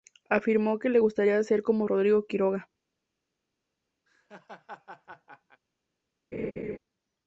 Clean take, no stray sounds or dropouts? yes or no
no